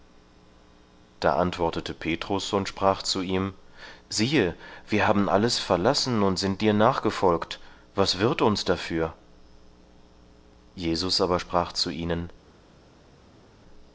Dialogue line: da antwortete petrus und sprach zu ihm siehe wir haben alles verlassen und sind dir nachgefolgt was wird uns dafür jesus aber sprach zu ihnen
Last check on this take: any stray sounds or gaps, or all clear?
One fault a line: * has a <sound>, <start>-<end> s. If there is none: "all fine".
all fine